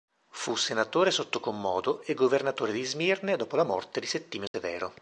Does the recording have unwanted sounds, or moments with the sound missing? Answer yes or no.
yes